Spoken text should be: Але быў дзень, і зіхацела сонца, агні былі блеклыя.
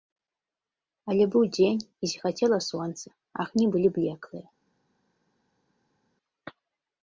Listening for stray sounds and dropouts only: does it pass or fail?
pass